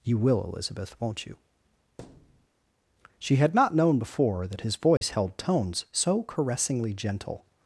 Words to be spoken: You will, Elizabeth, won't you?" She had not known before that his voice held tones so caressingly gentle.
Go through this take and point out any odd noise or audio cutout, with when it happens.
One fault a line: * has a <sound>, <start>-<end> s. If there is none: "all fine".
* has a thud, 2.0-2.5 s
* has a dropout, 5.0-5.0 s